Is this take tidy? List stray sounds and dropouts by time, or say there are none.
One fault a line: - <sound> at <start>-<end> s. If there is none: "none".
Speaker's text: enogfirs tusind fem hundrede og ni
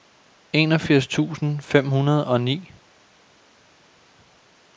none